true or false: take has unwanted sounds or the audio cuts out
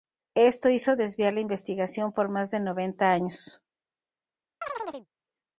true